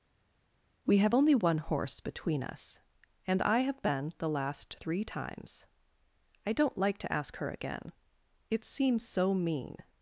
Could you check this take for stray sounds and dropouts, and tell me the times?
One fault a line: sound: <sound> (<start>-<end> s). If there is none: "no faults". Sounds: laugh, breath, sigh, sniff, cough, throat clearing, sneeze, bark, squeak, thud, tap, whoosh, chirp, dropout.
no faults